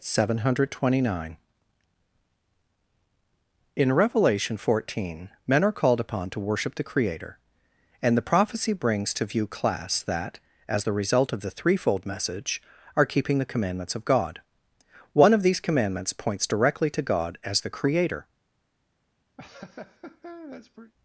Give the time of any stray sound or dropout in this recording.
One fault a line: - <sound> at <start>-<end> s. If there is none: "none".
- laugh at 19.4-20.9 s